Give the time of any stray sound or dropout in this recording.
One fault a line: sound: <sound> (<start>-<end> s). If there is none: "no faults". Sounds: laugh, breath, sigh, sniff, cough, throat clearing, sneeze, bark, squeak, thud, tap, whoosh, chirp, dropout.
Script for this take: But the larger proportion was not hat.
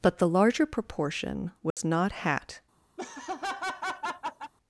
sound: dropout (1.7-1.8 s)
sound: laugh (3.0-4.5 s)